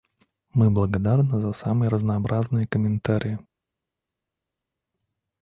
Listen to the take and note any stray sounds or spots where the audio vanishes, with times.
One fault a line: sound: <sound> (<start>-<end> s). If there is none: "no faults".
no faults